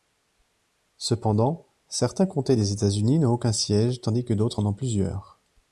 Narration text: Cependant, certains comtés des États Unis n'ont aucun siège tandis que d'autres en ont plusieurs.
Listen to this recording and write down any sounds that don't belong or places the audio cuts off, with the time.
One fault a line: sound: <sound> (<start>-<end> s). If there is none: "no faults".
no faults